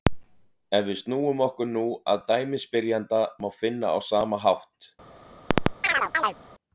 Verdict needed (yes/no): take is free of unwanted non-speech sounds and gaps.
no